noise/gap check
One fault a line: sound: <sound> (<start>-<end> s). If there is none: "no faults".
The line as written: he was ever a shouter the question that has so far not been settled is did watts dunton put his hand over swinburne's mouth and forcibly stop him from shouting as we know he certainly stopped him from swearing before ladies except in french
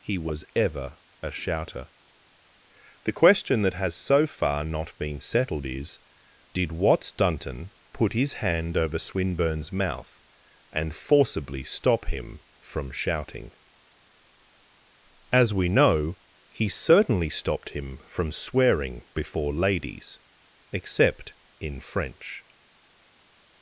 no faults